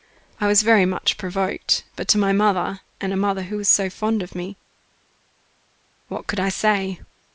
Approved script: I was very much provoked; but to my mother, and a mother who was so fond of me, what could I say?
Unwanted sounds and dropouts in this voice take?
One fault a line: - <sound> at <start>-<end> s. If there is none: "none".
none